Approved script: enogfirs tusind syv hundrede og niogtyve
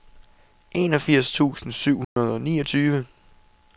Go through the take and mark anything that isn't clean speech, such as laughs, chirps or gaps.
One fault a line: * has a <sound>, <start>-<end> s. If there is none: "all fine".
* has a dropout, 2.0-2.2 s